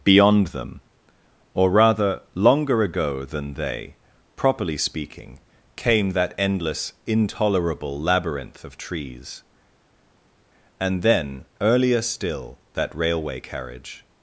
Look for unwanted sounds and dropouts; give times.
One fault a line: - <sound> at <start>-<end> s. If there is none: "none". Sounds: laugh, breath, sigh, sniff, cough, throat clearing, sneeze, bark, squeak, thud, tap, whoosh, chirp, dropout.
none